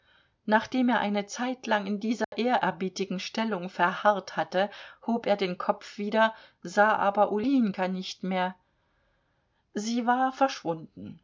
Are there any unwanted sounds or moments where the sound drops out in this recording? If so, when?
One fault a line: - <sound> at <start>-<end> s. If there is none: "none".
- dropout at 2.2-2.3 s